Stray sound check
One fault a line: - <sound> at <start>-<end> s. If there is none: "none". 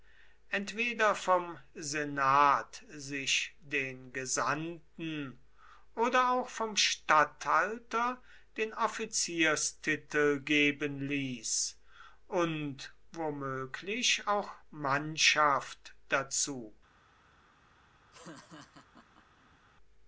- laugh at 18.1-19.6 s